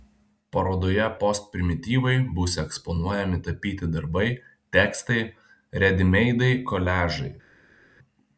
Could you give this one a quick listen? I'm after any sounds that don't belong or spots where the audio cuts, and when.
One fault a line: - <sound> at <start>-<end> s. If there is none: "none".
none